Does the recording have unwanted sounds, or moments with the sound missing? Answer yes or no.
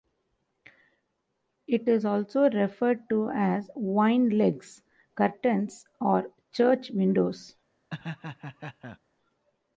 yes